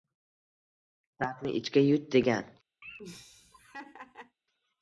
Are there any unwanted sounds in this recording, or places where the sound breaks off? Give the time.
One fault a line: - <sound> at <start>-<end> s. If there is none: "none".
- laugh at 2.8-4.4 s